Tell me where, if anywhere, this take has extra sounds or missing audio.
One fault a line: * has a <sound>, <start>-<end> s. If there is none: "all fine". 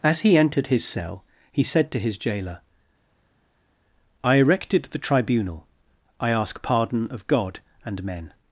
all fine